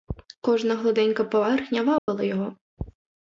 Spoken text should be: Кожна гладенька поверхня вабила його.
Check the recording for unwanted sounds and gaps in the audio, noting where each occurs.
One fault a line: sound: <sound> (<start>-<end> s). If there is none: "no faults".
sound: dropout (2.0-2.1 s)